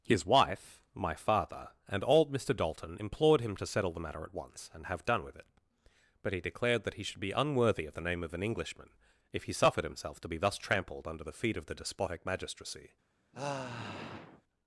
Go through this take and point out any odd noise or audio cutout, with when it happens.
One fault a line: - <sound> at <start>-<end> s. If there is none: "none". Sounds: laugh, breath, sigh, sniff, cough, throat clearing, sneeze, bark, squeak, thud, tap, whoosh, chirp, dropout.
- sigh at 13.3-14.4 s